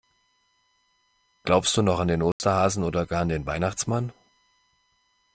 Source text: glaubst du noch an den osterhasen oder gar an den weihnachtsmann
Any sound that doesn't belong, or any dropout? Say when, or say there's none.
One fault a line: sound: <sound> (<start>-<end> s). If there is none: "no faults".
sound: dropout (2.3-2.4 s)